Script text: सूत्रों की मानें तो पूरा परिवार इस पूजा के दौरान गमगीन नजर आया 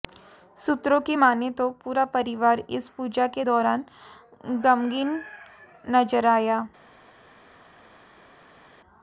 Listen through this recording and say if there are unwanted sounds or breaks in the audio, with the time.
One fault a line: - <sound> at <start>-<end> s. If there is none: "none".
none